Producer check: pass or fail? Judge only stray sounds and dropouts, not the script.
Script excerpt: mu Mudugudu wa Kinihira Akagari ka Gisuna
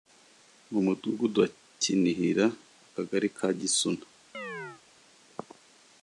fail